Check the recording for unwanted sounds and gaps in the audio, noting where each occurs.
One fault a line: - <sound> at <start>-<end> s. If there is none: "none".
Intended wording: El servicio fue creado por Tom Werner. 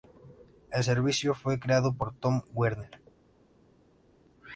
none